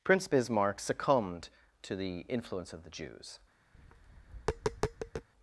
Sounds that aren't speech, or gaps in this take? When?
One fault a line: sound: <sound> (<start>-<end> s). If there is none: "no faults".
sound: tap (3.7-5.3 s)